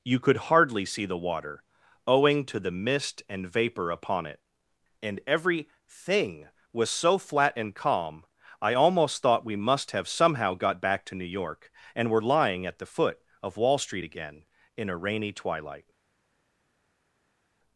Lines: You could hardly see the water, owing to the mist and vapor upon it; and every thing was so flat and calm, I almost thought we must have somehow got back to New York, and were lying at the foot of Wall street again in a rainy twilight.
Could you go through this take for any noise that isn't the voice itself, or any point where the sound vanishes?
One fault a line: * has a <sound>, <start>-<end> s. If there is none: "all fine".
all fine